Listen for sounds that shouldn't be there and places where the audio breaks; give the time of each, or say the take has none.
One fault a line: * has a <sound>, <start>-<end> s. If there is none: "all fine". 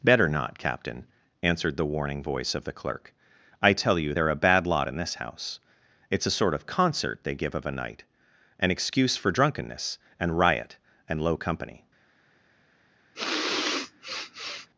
* has a sniff, 13.1-14.7 s